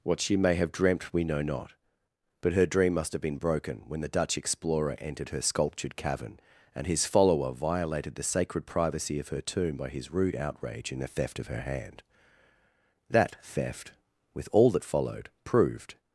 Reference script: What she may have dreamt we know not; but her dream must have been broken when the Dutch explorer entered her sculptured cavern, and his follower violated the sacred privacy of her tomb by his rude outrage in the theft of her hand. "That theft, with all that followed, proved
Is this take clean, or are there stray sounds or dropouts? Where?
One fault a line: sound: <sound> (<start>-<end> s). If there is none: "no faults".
no faults